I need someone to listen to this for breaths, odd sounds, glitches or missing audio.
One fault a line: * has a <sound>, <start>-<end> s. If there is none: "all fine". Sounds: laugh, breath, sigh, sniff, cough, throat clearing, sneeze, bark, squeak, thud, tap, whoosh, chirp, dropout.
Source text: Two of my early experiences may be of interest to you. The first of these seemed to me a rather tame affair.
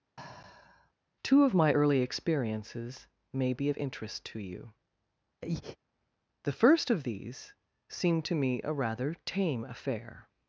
* has a sigh, 0.2-0.9 s
* has a breath, 5.4-5.8 s